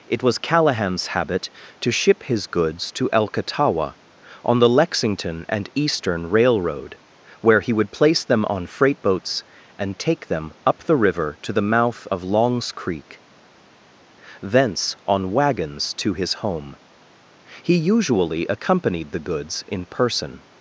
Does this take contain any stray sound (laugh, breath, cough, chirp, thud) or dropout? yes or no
no